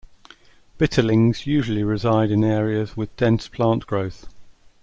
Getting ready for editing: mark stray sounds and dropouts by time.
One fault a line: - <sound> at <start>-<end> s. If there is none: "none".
none